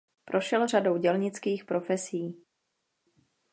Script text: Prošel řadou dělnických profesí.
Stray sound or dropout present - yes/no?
no